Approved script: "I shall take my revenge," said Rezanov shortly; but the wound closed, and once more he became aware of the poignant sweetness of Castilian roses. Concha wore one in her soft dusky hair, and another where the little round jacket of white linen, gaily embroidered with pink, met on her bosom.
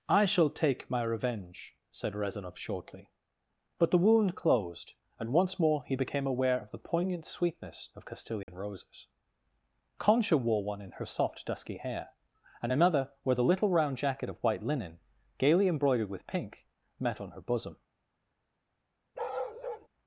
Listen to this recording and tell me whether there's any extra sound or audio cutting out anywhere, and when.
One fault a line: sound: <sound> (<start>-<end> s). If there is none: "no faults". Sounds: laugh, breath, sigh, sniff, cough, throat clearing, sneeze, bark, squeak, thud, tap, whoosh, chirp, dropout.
sound: dropout (8.4-8.5 s)
sound: bark (19.1-19.9 s)